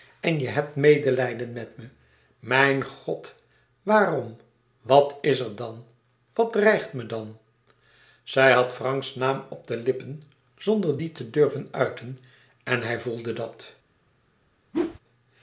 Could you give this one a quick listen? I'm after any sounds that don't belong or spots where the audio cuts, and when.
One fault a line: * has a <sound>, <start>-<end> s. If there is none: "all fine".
* has a whoosh, 14.7-15.0 s